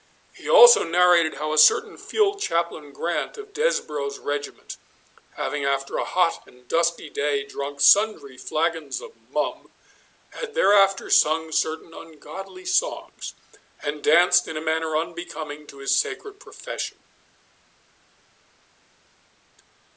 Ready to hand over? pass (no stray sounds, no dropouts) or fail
pass